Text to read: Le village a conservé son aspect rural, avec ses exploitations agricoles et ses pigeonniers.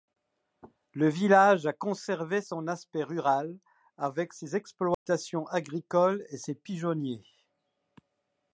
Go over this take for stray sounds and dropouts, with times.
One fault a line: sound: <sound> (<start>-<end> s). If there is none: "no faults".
sound: dropout (4.9-5.1 s)